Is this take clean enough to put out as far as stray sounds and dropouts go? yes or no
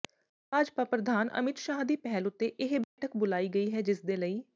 no